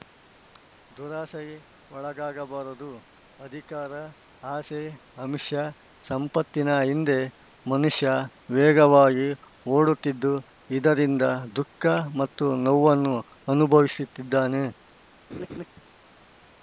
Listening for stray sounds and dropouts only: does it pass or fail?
fail